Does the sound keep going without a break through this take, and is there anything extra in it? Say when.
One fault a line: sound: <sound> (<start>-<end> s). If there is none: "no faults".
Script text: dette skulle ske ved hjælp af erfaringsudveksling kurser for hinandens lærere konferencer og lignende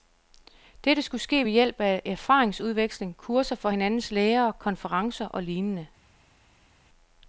no faults